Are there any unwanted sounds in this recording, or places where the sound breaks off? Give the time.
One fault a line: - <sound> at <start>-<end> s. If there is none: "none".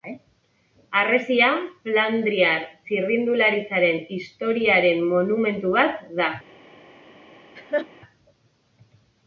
- laugh at 7.6-7.9 s